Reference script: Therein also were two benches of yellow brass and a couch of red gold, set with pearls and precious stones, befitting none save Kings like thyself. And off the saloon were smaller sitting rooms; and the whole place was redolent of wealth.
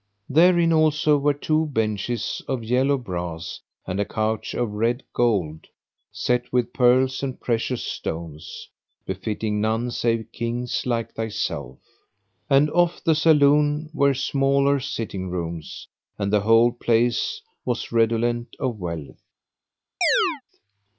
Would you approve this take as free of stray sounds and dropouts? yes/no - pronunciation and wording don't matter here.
no